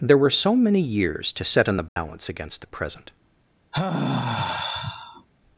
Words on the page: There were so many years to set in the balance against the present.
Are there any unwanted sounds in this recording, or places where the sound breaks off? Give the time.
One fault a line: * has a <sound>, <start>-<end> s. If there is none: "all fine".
* has a dropout, 1.9-2.0 s
* has a sigh, 3.7-5.3 s